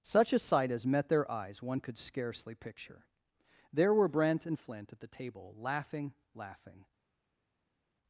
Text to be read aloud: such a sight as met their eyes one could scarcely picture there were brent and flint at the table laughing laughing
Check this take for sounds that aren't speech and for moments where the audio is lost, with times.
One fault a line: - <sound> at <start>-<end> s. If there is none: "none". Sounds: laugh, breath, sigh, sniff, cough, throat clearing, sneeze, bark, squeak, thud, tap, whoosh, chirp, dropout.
none